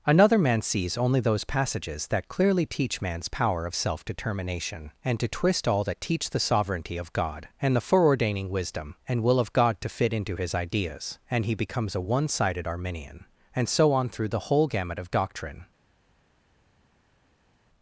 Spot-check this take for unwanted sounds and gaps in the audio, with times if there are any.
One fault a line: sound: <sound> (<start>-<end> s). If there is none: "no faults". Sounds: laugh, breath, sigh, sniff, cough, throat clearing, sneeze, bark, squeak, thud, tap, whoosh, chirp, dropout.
no faults